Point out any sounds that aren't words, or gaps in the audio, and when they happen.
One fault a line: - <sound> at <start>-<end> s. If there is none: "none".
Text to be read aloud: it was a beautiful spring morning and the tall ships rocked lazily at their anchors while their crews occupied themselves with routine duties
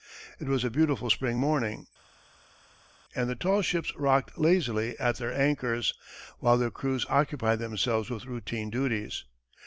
none